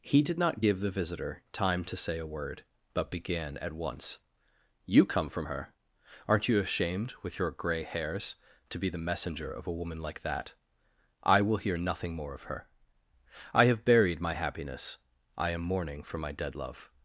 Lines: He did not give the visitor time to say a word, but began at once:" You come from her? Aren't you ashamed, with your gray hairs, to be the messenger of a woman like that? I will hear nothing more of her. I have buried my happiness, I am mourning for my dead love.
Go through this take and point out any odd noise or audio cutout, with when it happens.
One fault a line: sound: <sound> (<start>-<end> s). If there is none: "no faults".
no faults